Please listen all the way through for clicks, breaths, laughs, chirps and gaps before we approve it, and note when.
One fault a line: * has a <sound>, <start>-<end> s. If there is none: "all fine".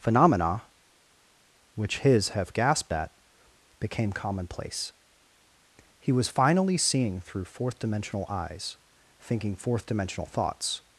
all fine